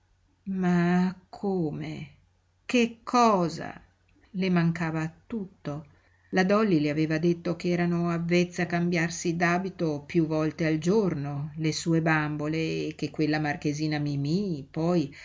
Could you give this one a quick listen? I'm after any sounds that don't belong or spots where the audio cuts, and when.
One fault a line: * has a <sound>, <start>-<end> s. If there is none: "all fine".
all fine